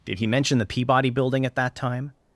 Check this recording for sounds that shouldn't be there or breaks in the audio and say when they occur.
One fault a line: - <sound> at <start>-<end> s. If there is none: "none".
none